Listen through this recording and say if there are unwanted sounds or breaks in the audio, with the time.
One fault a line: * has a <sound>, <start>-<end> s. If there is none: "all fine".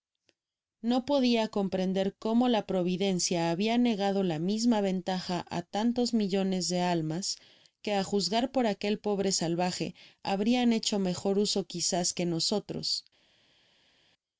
all fine